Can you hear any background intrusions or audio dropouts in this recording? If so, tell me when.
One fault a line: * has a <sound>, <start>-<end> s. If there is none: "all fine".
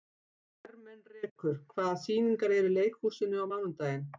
all fine